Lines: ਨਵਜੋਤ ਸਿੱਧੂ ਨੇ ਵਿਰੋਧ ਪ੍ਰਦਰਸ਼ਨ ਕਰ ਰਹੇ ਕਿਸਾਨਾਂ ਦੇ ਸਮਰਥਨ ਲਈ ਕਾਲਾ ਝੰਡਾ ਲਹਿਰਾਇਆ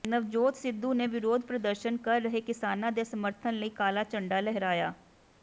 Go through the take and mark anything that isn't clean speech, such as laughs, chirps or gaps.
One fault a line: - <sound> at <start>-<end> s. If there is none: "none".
none